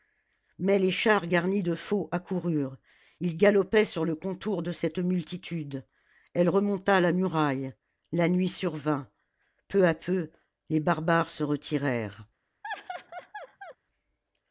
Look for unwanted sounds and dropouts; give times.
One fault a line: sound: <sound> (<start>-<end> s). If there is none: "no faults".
sound: laugh (12.6-13.8 s)